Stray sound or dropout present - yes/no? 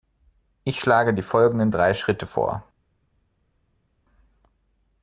no